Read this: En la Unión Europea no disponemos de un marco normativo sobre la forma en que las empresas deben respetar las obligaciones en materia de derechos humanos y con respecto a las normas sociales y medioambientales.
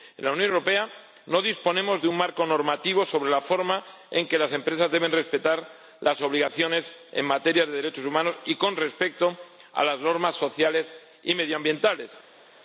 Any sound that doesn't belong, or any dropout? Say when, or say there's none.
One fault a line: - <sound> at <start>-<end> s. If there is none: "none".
none